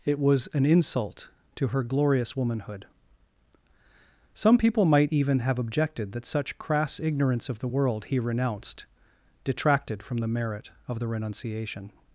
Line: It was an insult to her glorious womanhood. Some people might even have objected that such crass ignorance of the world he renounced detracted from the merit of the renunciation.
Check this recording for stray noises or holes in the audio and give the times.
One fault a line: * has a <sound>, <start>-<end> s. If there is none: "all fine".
all fine